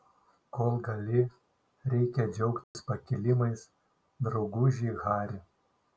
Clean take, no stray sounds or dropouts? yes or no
no